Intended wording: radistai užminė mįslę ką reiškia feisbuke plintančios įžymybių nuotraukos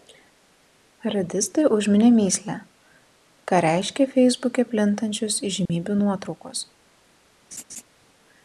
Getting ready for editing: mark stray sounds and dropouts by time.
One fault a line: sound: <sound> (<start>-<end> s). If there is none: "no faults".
sound: dropout (5.7-5.7 s)
sound: laugh (7.5-7.8 s)